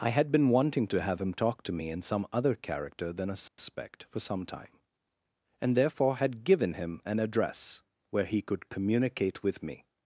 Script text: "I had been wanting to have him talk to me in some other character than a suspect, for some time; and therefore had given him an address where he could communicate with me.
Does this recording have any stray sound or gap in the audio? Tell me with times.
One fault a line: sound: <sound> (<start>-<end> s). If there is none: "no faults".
sound: dropout (3.5-3.6 s)